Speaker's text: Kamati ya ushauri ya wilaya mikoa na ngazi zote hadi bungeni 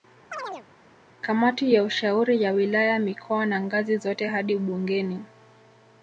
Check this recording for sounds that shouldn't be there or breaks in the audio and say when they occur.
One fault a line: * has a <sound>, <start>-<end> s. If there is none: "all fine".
* has a chirp, 0.3-0.7 s